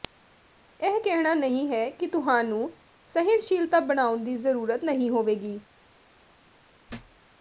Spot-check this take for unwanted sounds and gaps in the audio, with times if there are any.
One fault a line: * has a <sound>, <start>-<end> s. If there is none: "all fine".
* has a thud, 6.9-7.2 s